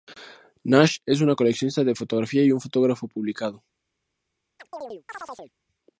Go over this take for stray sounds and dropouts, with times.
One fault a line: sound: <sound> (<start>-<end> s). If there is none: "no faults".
sound: chirp (4.6-5.5 s)